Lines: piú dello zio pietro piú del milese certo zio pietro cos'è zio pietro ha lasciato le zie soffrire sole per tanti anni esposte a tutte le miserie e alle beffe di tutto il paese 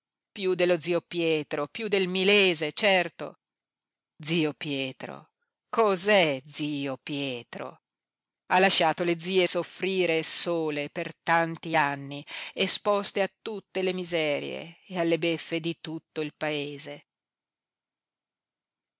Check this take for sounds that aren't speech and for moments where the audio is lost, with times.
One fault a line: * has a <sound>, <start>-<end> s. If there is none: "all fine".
all fine